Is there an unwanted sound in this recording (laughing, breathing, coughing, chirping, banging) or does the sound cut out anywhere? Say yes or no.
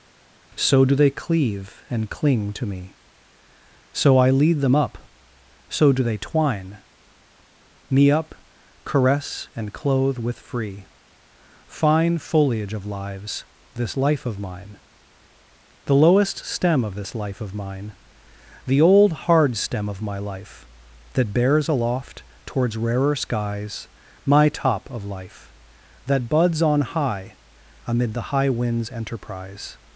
no